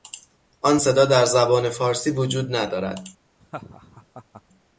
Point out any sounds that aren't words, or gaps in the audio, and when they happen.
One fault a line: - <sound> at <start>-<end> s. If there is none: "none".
- laugh at 3.4-4.4 s